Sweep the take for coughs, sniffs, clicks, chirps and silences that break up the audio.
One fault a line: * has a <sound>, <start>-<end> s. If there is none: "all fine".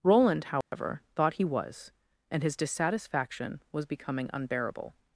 * has a dropout, 0.6-0.7 s